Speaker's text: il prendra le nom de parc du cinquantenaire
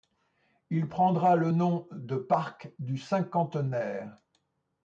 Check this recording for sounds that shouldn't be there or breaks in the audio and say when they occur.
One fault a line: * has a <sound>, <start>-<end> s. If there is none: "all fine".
all fine